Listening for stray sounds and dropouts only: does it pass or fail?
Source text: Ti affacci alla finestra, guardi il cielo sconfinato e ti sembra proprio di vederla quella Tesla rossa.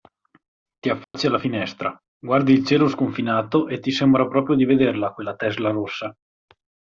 fail